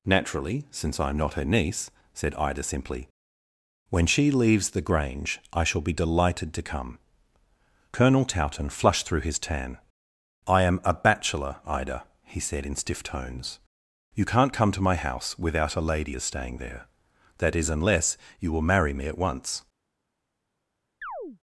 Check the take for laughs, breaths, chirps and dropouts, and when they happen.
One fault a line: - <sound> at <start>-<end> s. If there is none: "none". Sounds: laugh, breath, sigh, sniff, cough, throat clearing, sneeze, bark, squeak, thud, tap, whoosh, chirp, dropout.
- chirp at 21.0-21.4 s